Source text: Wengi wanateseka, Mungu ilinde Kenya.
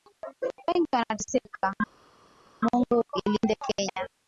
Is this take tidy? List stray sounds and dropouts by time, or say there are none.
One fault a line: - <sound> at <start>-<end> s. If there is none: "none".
none